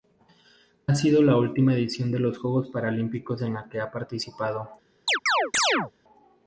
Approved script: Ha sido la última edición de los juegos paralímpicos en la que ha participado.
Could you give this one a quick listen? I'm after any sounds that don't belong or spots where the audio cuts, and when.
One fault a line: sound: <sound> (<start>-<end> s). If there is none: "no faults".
sound: chirp (5.1-5.9 s)